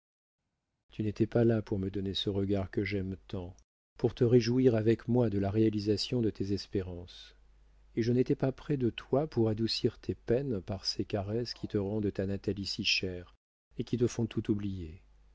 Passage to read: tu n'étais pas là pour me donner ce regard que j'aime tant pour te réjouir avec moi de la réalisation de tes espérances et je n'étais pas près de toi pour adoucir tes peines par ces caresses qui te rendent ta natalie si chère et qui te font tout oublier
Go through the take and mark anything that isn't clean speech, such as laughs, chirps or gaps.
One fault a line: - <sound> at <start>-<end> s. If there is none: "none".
none